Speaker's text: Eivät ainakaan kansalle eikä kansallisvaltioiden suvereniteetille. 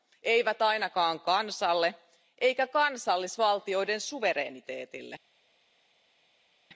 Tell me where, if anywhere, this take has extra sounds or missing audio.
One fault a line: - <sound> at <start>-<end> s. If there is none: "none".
none